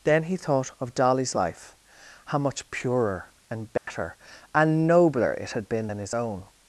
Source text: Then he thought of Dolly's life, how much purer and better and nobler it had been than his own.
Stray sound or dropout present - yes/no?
yes